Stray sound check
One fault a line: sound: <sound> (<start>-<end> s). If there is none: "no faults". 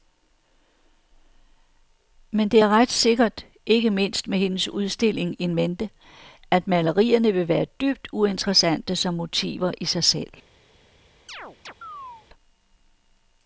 sound: chirp (11.3-12.3 s)